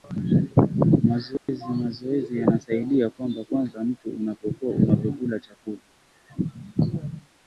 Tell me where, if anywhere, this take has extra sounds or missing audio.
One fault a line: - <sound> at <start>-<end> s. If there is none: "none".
- dropout at 1.4-1.5 s